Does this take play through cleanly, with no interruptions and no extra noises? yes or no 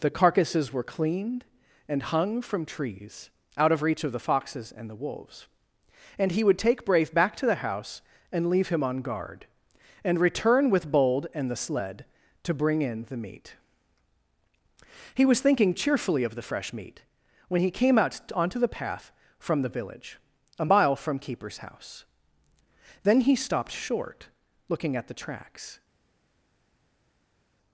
yes